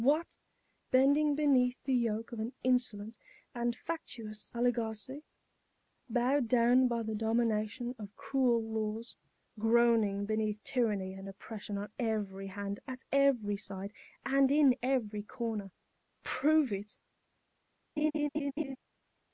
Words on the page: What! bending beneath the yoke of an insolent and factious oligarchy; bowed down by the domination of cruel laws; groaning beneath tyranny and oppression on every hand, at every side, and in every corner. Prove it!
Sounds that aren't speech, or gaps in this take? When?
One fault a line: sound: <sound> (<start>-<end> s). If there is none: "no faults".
sound: laugh (18.0-18.8 s)